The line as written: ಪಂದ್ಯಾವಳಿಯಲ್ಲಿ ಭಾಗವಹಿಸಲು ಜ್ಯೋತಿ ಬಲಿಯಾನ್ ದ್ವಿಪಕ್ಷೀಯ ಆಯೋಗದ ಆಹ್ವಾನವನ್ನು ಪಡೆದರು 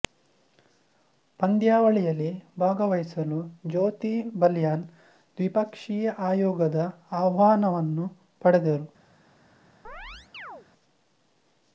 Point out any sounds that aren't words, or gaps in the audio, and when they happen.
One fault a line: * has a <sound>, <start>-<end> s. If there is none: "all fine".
* has a chirp, 9.8-10.7 s